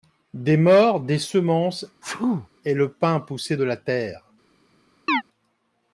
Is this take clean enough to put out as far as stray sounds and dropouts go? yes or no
no